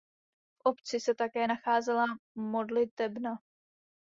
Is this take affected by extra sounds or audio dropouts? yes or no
no